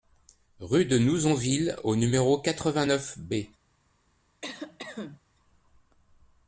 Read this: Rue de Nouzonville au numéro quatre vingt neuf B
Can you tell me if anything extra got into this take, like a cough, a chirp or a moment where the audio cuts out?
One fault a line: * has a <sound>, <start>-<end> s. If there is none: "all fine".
* has a cough, 4.4-5.2 s